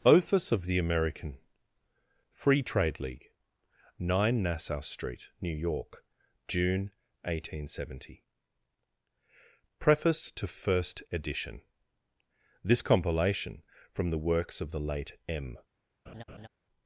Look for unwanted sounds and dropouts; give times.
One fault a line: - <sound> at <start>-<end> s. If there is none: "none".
- laugh at 16.1-16.5 s